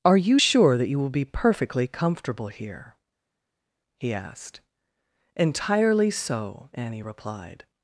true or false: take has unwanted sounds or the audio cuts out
false